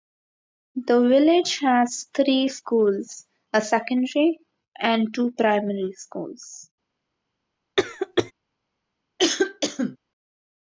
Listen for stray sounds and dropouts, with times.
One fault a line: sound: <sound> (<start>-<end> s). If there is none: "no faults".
sound: cough (7.8-8.3 s)
sound: cough (9.2-10.0 s)